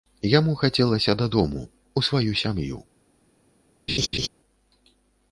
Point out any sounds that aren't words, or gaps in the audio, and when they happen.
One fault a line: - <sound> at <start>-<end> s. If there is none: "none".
- laugh at 3.9-4.3 s